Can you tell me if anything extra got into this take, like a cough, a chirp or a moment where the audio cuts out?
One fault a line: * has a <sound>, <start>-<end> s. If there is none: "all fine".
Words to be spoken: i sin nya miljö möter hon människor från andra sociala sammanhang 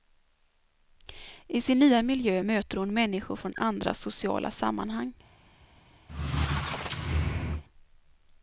* has a squeak, 6.1-7.6 s